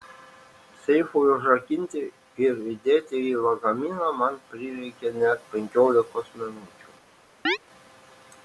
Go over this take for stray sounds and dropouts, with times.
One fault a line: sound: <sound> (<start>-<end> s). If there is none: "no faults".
sound: chirp (7.4-7.6 s)